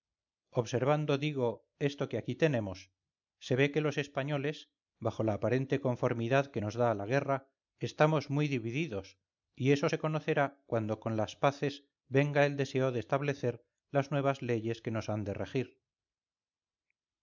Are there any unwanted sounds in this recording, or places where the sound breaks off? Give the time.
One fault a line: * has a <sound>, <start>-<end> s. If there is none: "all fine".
all fine